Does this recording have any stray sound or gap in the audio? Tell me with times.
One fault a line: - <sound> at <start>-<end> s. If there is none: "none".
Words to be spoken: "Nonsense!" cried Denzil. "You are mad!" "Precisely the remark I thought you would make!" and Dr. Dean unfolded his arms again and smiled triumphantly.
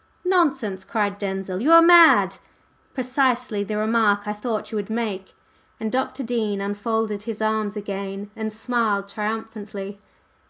none